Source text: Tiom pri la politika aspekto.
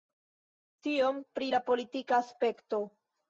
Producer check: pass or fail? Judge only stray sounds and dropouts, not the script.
pass